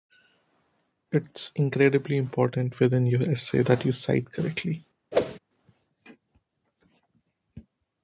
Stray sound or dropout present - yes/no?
yes